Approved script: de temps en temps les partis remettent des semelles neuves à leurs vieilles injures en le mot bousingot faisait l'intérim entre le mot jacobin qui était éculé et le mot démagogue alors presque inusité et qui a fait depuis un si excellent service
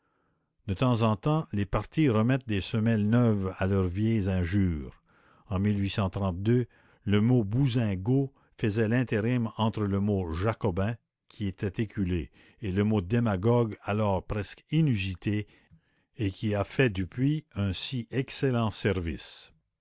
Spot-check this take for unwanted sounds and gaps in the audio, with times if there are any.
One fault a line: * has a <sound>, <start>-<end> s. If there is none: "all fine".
all fine